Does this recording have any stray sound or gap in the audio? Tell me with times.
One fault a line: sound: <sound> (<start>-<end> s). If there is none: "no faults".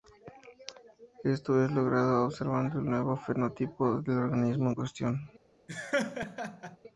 sound: laugh (5.7-6.8 s)